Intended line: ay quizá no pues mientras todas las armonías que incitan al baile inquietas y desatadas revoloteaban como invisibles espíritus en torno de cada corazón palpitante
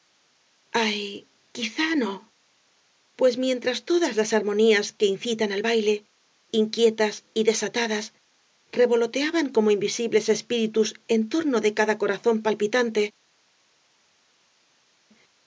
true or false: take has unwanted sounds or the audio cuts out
false